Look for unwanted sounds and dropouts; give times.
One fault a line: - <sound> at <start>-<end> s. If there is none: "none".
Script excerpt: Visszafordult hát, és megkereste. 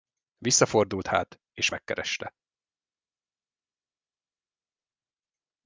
none